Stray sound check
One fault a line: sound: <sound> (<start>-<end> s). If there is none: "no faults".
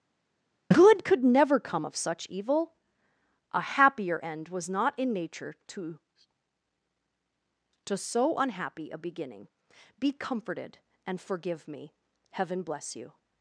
no faults